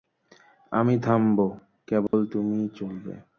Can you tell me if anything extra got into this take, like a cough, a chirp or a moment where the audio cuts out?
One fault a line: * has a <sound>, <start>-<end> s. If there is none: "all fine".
* has a dropout, 2.1-2.1 s